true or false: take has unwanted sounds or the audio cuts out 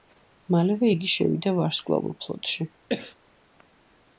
true